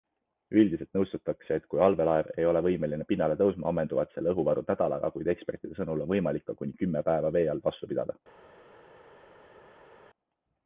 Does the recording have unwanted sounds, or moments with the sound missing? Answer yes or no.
no